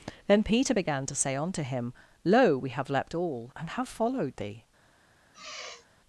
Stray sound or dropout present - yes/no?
yes